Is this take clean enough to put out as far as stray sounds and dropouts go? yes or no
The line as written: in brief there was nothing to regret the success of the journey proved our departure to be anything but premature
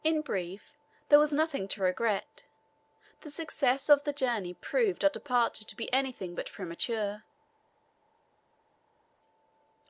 yes